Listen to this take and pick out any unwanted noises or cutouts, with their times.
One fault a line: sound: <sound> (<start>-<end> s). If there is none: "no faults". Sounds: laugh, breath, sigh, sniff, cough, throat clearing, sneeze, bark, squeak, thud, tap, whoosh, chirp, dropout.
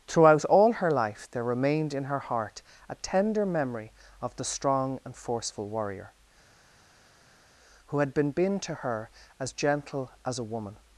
no faults